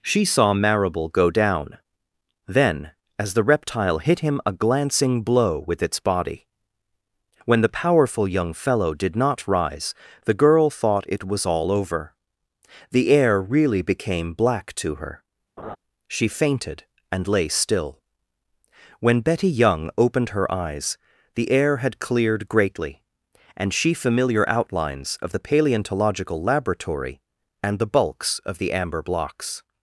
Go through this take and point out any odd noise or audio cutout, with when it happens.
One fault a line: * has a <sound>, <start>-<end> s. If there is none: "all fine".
* has a laugh, 15.6-15.8 s